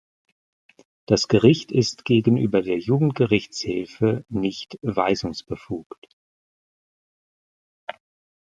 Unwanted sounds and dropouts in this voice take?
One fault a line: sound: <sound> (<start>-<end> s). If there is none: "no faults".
no faults